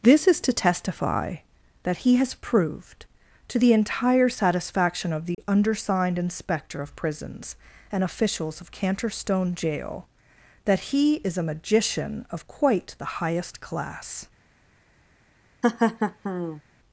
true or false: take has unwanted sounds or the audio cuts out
true